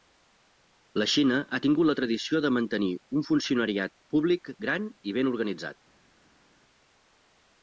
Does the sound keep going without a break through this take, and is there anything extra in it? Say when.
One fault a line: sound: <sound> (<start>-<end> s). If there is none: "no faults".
no faults